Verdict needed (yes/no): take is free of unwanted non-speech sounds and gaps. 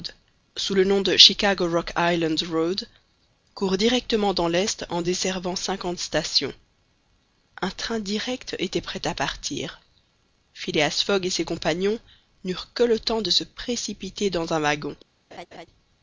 no